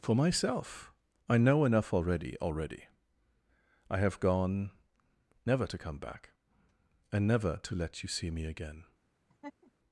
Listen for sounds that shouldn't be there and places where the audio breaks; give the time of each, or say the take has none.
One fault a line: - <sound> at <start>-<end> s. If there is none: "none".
- laugh at 9.3-9.7 s